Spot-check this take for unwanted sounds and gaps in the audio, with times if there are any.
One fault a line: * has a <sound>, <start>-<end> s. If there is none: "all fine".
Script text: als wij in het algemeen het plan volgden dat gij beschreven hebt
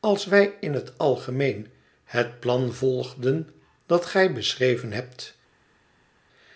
all fine